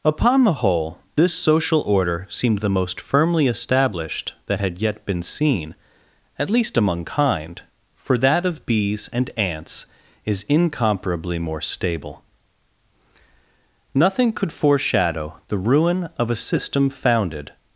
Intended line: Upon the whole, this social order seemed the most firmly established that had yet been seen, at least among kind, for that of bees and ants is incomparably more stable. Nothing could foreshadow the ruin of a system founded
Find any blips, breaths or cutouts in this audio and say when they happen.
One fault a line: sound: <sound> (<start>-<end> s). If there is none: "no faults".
no faults